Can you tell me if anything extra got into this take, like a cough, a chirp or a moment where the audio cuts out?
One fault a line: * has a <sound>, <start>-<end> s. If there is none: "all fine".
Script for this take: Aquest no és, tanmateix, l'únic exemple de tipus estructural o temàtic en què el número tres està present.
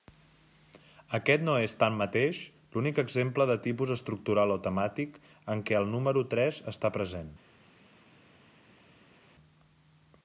all fine